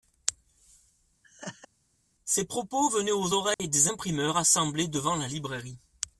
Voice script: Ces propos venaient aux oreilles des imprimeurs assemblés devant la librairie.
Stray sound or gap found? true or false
true